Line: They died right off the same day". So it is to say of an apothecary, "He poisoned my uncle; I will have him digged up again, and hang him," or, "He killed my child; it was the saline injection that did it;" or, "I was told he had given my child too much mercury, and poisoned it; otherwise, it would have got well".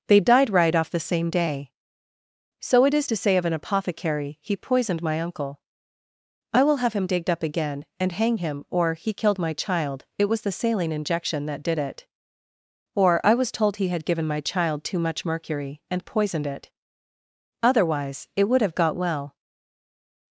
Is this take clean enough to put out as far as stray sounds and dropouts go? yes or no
yes